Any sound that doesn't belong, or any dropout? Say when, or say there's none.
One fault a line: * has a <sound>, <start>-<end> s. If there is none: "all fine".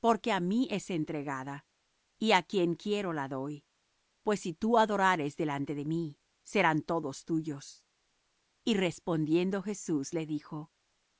all fine